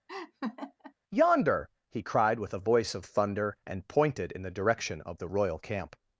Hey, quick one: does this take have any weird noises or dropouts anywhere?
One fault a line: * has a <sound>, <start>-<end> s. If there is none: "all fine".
* has a laugh, 0.1-0.9 s